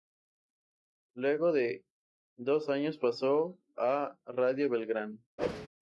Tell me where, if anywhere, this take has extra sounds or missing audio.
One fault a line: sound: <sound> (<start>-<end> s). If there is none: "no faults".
sound: whoosh (5.4-5.7 s)